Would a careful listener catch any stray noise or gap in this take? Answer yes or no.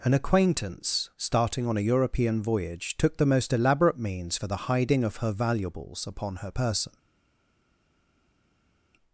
no